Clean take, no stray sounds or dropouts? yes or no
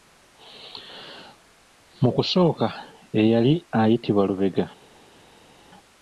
yes